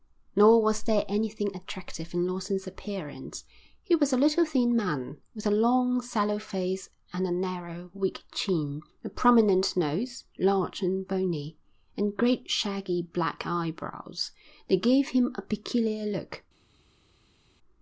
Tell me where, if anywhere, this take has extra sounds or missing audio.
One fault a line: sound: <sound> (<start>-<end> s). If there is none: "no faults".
no faults